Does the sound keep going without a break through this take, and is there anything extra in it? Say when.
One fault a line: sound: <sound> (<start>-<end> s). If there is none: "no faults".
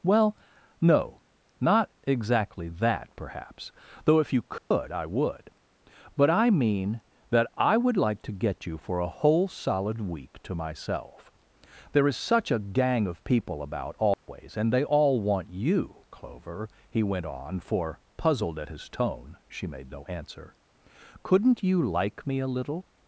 sound: dropout (4.6-4.7 s)
sound: dropout (14.1-14.3 s)